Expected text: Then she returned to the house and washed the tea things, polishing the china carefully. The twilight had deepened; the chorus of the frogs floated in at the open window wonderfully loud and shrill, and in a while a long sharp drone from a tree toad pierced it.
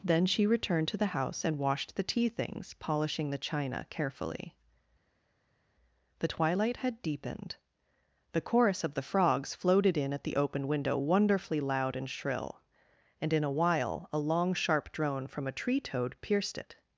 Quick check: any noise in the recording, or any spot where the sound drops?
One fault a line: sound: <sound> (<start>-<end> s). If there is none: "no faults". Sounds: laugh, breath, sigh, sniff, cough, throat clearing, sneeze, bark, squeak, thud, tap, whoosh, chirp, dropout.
no faults